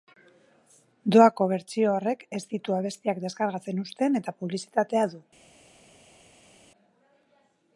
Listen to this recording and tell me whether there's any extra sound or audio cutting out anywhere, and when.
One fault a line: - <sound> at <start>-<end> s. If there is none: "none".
none